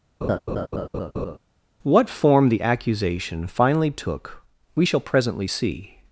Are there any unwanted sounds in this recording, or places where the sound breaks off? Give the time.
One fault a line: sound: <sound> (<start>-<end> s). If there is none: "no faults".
sound: laugh (0.2-1.4 s)